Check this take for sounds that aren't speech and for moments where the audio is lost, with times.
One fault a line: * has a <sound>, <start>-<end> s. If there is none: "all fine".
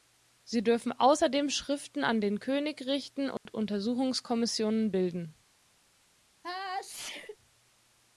* has a dropout, 3.4-3.5 s
* has a sneeze, 6.4-7.4 s